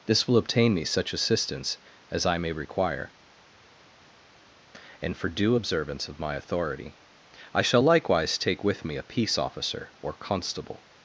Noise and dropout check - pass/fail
pass